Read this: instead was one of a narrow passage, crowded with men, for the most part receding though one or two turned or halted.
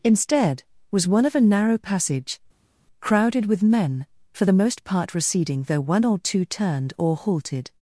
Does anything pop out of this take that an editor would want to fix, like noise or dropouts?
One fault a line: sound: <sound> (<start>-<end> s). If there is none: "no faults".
no faults